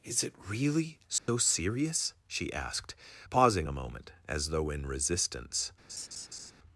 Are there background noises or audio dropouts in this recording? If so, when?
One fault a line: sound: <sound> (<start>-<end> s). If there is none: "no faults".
sound: dropout (1.2-1.3 s)
sound: laugh (5.9-6.5 s)